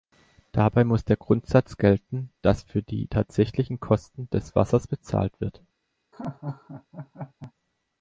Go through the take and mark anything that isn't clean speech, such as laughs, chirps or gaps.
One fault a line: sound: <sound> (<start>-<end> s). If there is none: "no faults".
sound: laugh (6.1-7.5 s)